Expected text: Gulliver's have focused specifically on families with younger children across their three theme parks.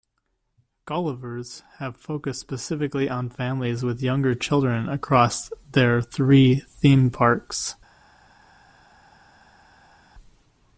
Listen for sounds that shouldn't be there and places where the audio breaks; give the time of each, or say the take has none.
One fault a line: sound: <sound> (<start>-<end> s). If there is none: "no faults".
no faults